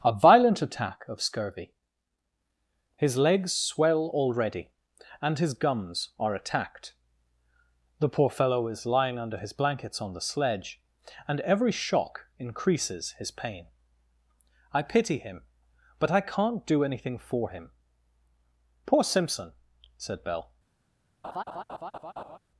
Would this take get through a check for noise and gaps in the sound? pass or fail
fail